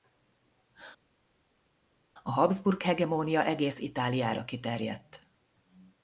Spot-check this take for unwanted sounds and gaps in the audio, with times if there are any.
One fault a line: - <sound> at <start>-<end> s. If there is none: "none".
none